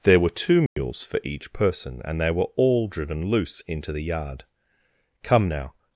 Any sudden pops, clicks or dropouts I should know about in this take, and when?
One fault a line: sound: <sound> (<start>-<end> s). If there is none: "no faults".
sound: dropout (0.7-0.8 s)